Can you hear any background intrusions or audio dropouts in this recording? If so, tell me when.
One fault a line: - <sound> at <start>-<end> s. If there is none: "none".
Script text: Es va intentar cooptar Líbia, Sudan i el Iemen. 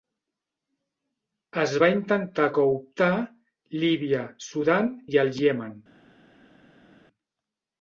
none